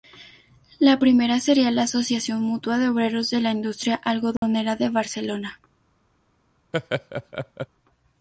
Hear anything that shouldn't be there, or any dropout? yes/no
yes